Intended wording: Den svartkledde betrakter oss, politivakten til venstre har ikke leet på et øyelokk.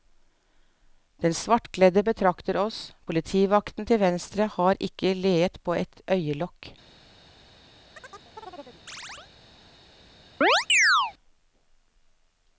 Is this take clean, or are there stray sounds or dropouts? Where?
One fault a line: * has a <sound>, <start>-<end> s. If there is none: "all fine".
* has a chirp, 8.0-9.3 s
* has a chirp, 10.4-11.1 s